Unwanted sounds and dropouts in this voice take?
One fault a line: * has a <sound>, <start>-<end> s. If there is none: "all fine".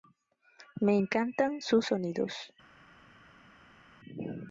all fine